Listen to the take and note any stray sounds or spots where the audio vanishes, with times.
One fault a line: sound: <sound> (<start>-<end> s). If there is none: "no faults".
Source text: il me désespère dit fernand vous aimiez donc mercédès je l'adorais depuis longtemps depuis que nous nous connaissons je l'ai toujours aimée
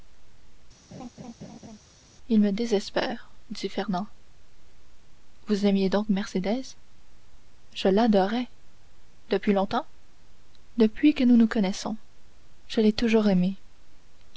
sound: laugh (0.9-1.8 s)